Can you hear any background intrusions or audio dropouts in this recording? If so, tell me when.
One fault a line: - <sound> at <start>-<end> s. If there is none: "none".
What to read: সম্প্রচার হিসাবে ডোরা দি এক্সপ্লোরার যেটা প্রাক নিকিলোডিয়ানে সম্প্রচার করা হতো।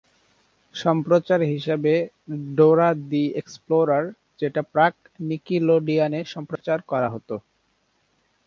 - dropout at 6.6-6.6 s